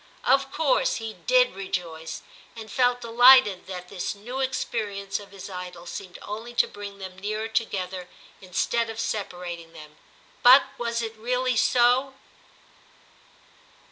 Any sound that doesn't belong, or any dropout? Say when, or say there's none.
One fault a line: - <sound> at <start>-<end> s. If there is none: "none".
none